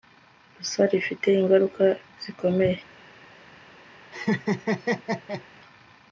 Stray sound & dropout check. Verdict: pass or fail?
fail